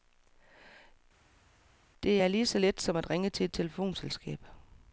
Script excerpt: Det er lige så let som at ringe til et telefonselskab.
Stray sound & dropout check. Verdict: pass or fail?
pass